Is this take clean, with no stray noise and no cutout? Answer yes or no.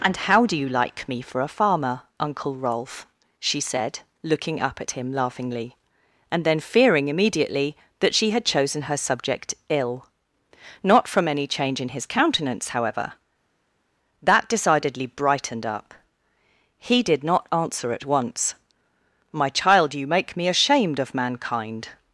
yes